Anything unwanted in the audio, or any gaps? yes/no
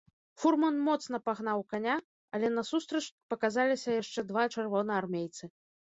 no